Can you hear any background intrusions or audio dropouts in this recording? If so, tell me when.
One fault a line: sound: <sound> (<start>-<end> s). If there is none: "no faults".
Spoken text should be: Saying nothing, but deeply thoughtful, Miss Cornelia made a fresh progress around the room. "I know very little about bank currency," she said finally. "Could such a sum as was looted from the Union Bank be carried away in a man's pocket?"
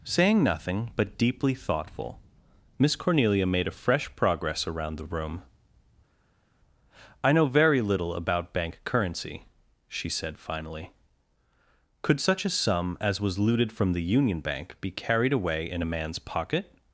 no faults